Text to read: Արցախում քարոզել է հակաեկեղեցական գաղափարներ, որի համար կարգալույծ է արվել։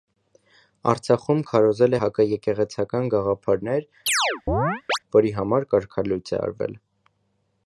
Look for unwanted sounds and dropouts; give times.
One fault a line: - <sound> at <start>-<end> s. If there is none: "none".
- chirp at 4.1-5.0 s